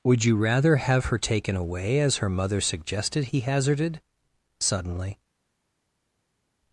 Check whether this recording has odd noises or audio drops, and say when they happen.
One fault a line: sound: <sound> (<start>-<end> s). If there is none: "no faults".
no faults